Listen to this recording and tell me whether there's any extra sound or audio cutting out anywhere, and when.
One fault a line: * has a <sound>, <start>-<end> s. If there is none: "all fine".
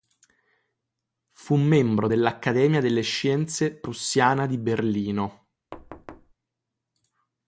* has a thud, 5.7-6.3 s